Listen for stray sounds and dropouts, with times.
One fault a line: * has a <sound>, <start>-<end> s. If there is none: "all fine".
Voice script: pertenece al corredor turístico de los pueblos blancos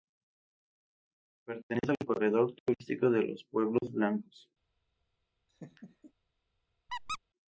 * has a laugh, 5.5-6.1 s
* has a squeak, 6.9-7.2 s